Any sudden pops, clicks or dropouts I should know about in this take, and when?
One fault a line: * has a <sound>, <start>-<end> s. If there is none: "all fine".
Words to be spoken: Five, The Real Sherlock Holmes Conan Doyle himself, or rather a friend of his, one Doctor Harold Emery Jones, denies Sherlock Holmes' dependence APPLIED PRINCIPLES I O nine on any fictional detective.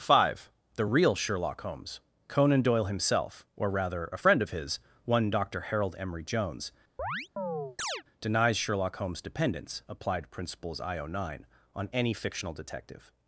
* has a chirp, 7.0-8.0 s